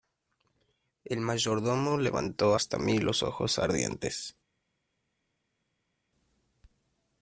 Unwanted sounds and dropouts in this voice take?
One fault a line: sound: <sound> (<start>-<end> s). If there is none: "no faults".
no faults